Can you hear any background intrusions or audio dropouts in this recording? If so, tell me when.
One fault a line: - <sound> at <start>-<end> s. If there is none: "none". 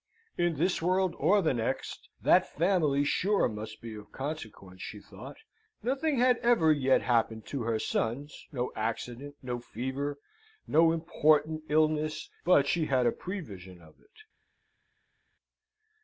none